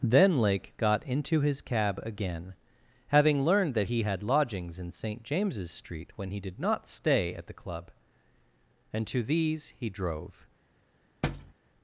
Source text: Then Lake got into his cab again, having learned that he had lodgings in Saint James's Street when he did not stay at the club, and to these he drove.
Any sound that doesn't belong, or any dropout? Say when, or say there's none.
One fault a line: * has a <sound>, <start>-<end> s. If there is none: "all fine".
* has a thud, 11.2-11.5 s